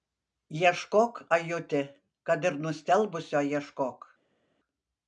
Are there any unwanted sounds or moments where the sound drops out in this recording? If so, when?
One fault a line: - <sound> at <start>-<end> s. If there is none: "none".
none